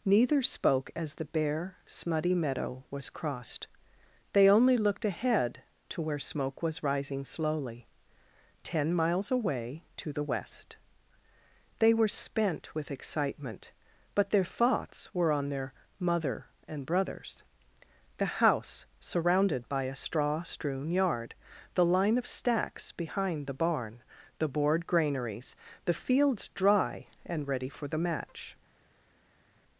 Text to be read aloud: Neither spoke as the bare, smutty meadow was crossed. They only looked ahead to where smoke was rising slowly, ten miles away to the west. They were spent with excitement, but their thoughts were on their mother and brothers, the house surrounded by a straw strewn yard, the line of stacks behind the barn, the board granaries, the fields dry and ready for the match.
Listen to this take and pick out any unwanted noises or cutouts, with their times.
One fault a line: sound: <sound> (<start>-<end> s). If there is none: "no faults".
no faults